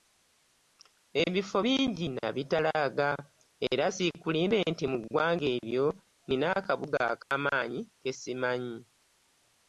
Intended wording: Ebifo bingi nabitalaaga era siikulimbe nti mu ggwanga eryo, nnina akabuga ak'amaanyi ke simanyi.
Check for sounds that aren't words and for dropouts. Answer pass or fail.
fail